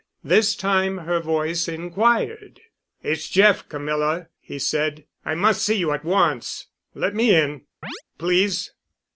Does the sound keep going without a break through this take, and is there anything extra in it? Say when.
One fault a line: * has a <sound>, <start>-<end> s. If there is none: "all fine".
* has a chirp, 7.8-8.0 s